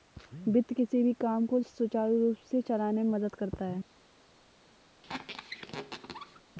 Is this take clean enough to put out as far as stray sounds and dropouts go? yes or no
no